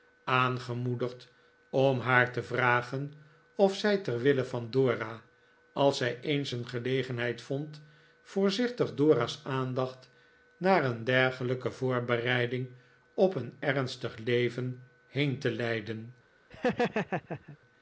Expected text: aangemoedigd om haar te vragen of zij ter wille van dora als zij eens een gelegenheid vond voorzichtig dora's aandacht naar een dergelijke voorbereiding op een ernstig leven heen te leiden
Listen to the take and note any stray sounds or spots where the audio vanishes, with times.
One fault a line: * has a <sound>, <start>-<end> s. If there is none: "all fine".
* has a laugh, 16.5-17.6 s